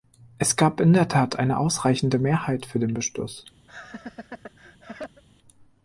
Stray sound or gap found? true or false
true